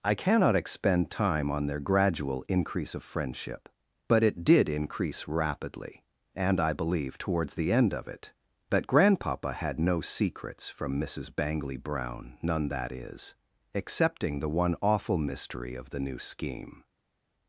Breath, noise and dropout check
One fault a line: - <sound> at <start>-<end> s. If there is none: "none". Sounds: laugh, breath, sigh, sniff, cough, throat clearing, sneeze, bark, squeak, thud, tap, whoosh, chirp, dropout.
none